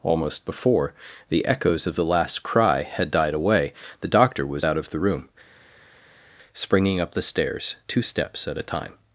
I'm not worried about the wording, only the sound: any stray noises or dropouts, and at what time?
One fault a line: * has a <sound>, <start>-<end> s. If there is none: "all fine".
all fine